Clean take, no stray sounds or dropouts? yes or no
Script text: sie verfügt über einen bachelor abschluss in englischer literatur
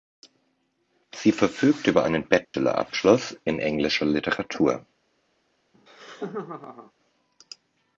no